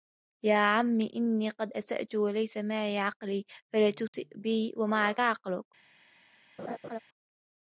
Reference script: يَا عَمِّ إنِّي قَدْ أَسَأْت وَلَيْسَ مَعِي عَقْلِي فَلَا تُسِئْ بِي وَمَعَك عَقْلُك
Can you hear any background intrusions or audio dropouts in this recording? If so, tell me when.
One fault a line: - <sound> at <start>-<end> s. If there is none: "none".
- dropout at 4.1-4.1 s
- laugh at 6.6-7.0 s